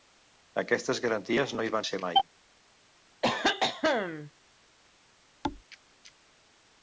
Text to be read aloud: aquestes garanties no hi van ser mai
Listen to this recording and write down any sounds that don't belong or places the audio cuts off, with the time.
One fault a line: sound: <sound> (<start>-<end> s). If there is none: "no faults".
sound: cough (3.2-4.3 s)
sound: thud (5.4-5.6 s)